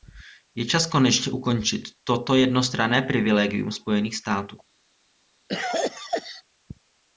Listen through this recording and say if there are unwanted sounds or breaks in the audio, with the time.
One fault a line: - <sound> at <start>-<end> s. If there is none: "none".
- cough at 5.5-6.4 s